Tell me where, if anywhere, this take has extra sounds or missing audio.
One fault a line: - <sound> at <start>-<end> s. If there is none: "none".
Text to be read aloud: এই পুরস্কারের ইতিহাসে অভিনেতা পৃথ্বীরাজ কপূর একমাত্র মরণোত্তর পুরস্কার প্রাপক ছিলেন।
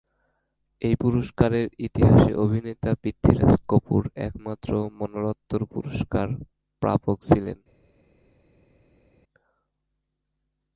none